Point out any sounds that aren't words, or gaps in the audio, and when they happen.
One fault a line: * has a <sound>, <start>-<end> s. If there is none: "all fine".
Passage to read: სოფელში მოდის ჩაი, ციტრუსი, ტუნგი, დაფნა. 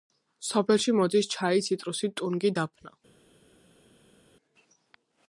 all fine